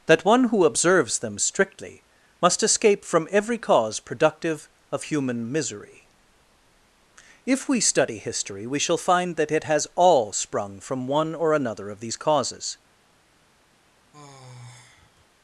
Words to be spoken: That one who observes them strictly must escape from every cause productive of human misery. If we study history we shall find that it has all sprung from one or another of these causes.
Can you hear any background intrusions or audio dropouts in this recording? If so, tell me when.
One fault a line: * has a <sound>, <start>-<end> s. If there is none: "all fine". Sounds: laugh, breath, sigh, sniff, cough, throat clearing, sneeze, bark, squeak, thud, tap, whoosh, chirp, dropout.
* has a sigh, 14.1-15.3 s